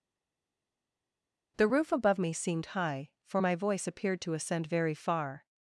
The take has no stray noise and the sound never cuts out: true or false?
true